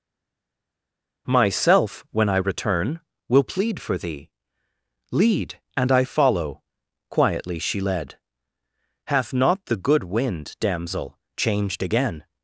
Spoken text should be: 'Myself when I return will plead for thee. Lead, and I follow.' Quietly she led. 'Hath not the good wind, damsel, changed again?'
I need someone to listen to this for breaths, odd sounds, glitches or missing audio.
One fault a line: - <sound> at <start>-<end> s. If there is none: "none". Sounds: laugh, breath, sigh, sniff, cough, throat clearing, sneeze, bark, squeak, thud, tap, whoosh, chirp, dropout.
none